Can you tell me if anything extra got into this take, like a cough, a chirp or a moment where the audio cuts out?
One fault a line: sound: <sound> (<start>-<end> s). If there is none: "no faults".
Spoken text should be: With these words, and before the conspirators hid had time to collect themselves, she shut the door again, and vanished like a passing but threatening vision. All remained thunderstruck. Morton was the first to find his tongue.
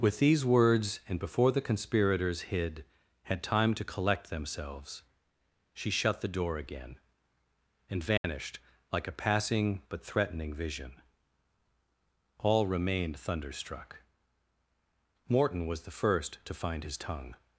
sound: dropout (8.2-8.2 s)